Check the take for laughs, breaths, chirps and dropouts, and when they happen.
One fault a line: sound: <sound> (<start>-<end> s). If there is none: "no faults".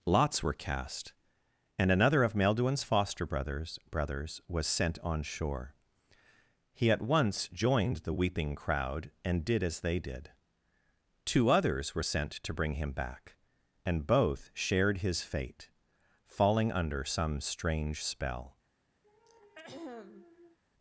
sound: throat clearing (19.0-20.6 s)